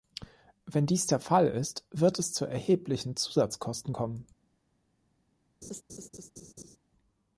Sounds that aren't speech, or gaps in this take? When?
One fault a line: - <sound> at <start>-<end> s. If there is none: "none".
- laugh at 5.6-6.8 s